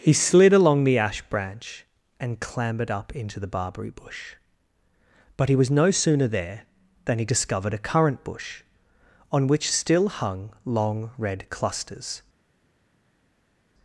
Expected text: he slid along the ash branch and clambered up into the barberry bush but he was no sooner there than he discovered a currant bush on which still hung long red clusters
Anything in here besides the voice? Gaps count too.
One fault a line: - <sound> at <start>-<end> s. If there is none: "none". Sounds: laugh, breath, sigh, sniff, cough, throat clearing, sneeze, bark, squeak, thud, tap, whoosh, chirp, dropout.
none